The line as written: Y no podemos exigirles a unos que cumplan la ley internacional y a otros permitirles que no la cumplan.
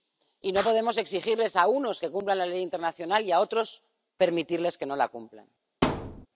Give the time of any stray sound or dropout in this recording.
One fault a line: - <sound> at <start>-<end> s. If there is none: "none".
- thud at 5.8-6.3 s